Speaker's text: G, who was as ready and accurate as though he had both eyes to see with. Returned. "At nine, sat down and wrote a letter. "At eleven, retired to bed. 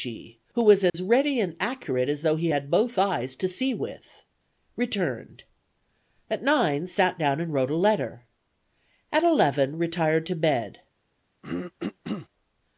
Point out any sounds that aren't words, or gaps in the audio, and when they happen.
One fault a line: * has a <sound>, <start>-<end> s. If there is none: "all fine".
* has a dropout, 0.9-0.9 s
* has a throat clearing, 11.4-12.3 s